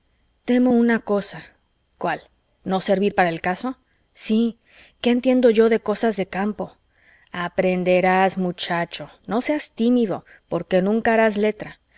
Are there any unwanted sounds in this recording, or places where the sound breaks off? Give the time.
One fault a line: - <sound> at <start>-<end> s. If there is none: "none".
none